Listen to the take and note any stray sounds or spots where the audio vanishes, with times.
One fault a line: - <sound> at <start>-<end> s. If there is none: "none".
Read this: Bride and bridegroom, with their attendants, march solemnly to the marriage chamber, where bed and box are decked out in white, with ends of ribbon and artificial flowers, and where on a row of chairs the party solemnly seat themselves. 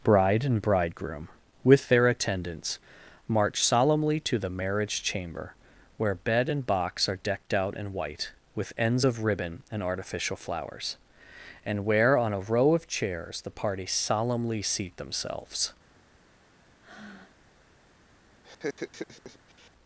- breath at 16.8-17.4 s
- laugh at 18.4-19.7 s